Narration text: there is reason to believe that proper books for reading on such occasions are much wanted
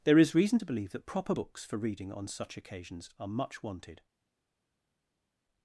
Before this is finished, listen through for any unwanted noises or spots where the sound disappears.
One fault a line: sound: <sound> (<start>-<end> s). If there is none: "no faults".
no faults